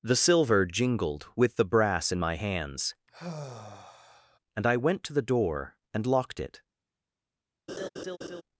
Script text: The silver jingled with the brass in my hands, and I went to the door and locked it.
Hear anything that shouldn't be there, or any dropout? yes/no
yes